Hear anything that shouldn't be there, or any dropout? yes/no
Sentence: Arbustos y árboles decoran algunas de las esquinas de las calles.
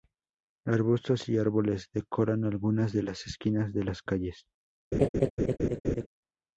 yes